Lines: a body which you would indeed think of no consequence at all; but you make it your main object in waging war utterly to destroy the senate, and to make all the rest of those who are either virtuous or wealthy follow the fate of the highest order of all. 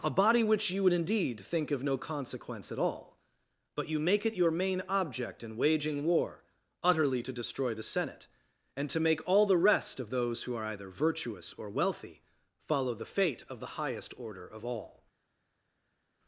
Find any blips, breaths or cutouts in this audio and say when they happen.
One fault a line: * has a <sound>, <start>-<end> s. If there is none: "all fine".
all fine